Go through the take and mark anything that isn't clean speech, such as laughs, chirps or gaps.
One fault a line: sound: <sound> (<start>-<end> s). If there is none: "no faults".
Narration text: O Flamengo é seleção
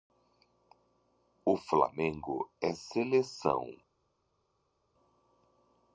no faults